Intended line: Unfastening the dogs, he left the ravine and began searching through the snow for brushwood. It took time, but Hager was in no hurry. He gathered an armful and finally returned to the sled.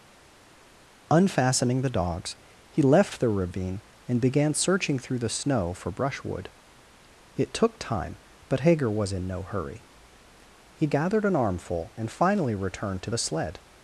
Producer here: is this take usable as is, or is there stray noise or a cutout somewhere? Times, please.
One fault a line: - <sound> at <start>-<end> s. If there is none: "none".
none